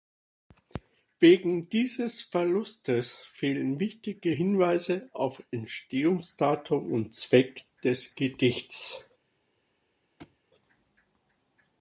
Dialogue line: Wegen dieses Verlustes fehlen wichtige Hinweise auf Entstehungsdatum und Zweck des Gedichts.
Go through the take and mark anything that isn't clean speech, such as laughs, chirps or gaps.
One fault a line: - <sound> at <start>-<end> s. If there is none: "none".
- thud at 10.2-10.4 s